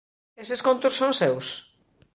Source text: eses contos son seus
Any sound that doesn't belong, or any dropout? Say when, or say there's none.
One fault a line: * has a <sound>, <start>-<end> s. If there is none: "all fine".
all fine